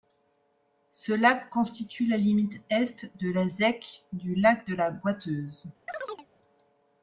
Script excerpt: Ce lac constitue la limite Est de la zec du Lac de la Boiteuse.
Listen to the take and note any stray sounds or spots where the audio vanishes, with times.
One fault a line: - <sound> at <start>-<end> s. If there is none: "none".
- chirp at 5.9-6.3 s